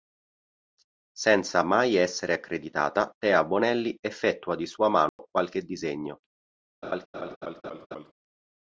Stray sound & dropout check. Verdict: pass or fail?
fail